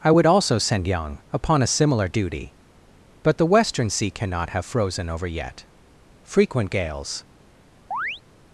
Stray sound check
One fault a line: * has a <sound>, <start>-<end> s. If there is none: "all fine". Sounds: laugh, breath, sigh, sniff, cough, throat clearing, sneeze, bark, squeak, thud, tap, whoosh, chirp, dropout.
* has a chirp, 7.9-8.2 s